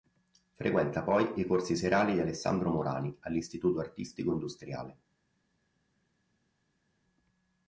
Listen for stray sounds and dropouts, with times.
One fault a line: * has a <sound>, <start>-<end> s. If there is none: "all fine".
all fine